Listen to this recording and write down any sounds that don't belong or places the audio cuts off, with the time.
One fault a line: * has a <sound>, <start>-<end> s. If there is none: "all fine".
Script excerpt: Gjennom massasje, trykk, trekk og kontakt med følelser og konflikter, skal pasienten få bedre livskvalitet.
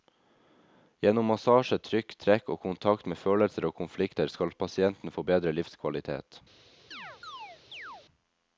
* has a chirp, 6.9-8.1 s